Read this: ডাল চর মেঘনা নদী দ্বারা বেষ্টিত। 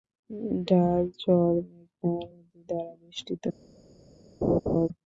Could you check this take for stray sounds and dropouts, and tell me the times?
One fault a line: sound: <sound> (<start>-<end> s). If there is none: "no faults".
sound: laugh (4.4-4.9 s)